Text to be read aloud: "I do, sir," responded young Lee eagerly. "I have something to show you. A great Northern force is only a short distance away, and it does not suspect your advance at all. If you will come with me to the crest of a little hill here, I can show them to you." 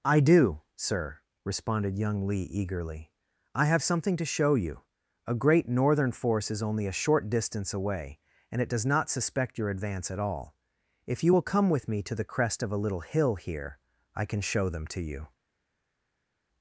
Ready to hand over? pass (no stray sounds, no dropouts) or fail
pass